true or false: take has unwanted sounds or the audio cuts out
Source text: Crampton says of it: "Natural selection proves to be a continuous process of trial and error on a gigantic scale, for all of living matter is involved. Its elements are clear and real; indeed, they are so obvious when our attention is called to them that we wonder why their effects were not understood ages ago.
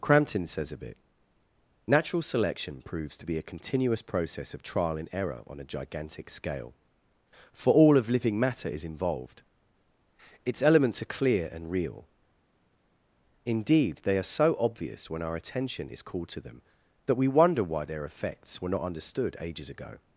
false